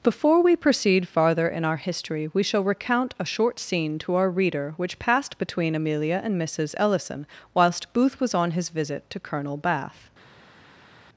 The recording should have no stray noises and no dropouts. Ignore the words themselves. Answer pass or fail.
pass